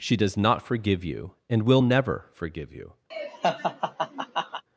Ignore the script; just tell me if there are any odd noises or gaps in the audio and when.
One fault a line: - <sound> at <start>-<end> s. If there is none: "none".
- laugh at 3.1-4.6 s